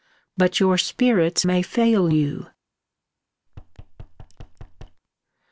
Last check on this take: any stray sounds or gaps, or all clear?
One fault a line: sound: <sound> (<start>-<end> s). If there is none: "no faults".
sound: thud (3.5-5.0 s)